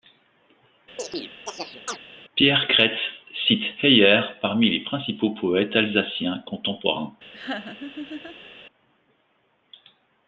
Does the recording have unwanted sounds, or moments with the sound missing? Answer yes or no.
yes